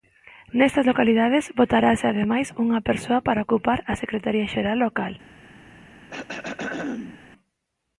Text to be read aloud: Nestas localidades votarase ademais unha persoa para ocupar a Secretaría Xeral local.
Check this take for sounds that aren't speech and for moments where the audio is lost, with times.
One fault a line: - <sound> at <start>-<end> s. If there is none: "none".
- throat clearing at 6.1-7.2 s